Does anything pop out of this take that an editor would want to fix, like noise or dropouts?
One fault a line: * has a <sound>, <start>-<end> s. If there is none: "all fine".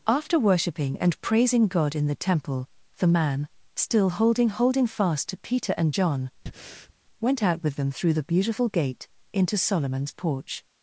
* has a breath, 6.5-6.9 s